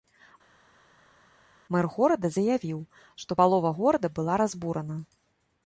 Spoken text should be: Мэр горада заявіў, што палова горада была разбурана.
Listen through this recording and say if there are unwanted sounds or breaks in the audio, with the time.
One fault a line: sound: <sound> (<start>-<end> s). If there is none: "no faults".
no faults